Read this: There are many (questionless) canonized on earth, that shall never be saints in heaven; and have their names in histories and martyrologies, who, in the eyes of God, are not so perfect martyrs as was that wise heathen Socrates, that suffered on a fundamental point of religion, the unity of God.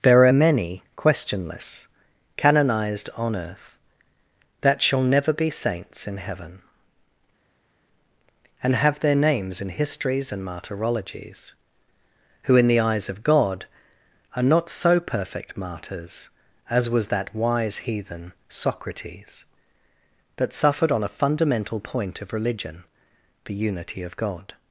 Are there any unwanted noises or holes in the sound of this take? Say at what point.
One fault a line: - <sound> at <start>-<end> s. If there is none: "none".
none